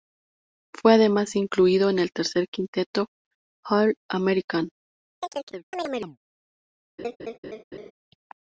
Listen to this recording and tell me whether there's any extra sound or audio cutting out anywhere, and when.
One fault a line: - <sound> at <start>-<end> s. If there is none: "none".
- chirp at 5.2-6.2 s
- laugh at 7.0-7.9 s